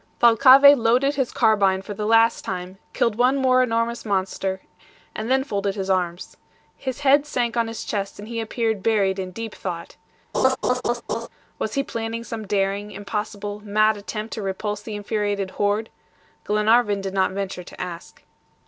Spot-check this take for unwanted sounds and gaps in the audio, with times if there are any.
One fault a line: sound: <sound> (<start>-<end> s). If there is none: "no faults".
sound: laugh (10.3-11.3 s)